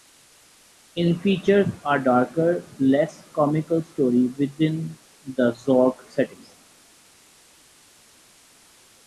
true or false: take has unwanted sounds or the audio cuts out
false